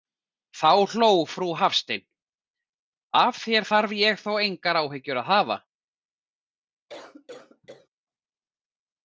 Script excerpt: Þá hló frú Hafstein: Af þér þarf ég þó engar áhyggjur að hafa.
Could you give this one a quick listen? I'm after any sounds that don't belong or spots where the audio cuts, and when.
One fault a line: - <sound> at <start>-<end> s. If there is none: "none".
- cough at 6.9-7.9 s